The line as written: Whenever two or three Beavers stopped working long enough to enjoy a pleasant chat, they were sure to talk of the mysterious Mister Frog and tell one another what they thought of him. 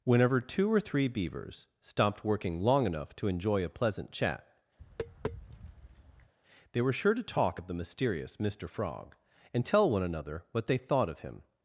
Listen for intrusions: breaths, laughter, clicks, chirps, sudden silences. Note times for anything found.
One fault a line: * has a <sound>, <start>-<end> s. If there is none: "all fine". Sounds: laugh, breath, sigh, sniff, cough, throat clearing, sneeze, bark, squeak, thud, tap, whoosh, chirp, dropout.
* has a tap, 4.8-6.3 s